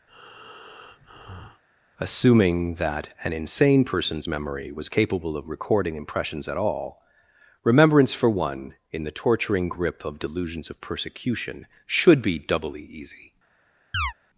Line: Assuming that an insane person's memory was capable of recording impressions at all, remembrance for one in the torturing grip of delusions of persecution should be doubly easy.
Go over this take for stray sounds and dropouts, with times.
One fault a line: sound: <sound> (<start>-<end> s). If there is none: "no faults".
sound: breath (0.1-1.6 s)
sound: chirp (13.9-14.1 s)